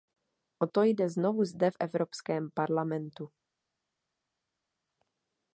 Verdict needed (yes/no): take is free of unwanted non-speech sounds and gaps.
yes